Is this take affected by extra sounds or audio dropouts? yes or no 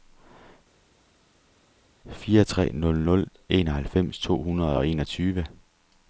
no